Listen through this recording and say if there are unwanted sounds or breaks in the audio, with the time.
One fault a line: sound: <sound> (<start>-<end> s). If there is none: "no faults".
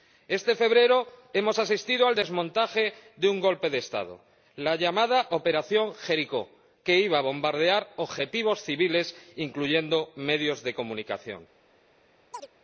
sound: chirp (12.3-12.5 s)